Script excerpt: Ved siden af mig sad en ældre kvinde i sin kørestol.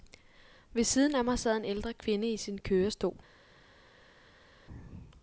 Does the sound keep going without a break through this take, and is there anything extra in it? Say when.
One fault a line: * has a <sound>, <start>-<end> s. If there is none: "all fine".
all fine